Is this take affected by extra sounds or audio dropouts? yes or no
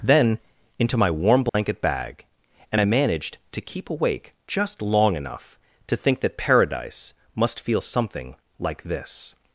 yes